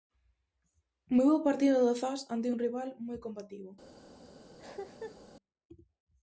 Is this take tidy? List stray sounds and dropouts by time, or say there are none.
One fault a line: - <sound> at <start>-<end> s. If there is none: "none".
- cough at 4.6-5.2 s